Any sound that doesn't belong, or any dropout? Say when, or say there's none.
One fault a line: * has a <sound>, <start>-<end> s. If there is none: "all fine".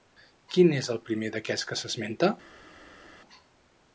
all fine